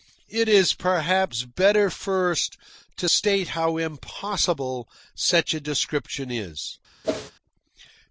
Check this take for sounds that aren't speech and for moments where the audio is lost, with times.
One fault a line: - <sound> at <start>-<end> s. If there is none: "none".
- whoosh at 7.0-7.3 s